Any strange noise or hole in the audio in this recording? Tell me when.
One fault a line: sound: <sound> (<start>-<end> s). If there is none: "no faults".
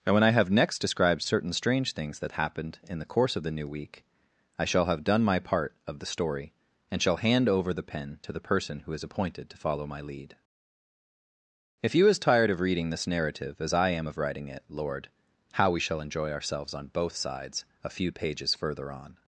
no faults